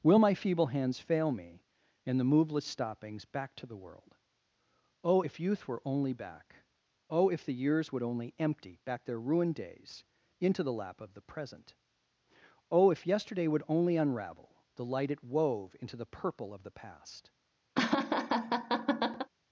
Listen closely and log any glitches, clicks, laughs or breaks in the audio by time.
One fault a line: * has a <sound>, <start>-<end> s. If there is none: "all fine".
* has a laugh, 17.8-19.3 s